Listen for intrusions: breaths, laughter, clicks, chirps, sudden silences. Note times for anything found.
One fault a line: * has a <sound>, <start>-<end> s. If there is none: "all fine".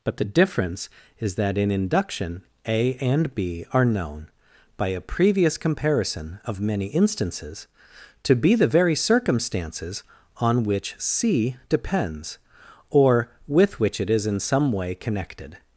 all fine